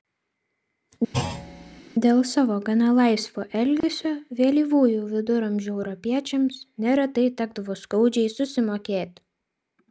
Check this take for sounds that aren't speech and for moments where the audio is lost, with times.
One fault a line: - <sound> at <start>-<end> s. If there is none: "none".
- thud at 1.1-1.8 s
- dropout at 3.8-3.8 s